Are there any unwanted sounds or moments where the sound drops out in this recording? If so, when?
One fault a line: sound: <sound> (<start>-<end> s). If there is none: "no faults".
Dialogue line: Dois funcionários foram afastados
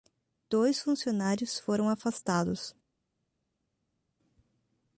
no faults